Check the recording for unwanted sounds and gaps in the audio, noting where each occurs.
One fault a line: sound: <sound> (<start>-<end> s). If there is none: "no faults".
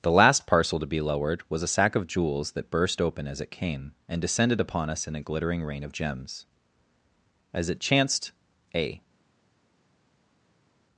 no faults